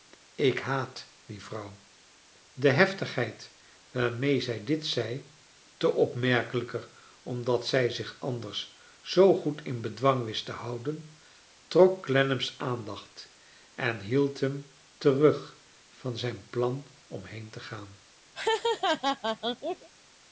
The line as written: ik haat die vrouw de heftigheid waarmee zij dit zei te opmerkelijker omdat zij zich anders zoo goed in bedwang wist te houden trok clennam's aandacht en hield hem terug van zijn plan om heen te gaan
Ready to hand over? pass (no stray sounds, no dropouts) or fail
fail